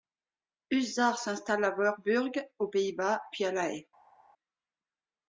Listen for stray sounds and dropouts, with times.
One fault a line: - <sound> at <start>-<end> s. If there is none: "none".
none